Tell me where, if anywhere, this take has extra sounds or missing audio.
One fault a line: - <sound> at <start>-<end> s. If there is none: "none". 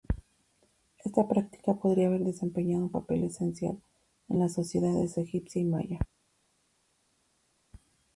none